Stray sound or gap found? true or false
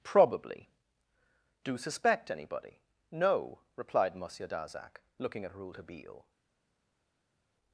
false